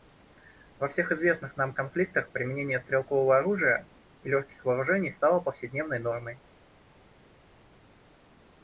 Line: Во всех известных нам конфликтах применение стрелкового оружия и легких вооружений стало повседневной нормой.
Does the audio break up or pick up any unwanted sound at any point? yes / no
no